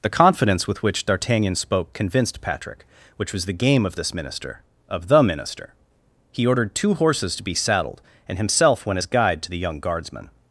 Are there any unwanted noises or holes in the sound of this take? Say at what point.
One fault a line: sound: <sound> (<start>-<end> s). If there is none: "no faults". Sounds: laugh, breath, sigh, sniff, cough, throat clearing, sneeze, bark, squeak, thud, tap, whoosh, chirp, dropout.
no faults